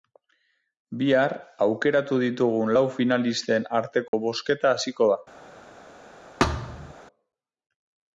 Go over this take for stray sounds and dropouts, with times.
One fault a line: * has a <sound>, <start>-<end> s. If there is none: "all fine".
* has a dropout, 4.1-4.1 s
* has a thud, 6.4-6.9 s